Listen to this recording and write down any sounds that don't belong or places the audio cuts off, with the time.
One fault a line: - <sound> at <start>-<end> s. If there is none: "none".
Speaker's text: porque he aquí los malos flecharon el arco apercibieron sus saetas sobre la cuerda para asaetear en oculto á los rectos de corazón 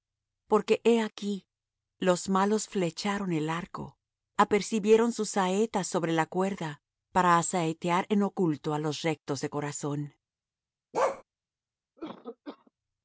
- bark at 10.9-11.2 s
- cough at 12.0-12.7 s